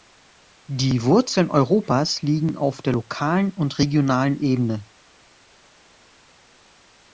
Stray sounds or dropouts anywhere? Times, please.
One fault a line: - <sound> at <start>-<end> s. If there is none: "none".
none